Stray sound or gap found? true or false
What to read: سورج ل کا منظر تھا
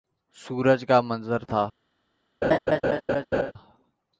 true